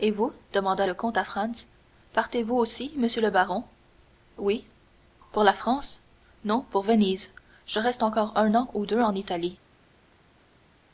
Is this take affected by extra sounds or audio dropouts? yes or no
no